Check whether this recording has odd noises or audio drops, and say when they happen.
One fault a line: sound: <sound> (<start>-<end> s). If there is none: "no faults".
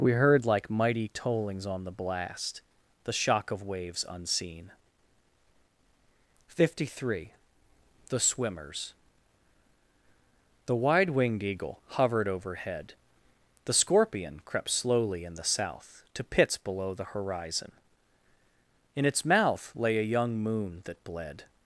no faults